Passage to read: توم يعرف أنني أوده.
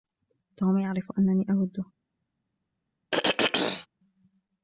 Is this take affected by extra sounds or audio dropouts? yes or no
yes